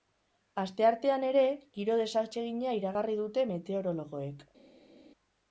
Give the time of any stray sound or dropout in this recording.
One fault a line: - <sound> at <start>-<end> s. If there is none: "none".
none